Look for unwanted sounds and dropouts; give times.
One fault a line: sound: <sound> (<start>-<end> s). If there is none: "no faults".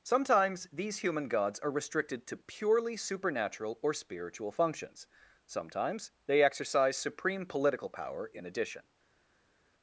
no faults